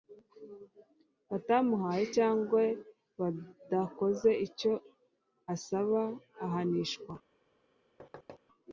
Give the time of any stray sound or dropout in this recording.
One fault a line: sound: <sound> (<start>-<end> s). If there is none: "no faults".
sound: thud (8.0-8.4 s)